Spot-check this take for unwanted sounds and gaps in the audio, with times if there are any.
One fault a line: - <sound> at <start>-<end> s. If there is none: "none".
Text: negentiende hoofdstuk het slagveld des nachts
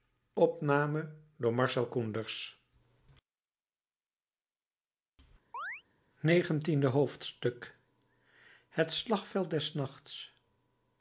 - chirp at 5.5-5.8 s